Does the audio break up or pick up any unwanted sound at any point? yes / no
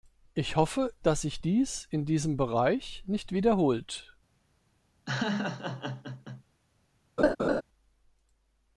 yes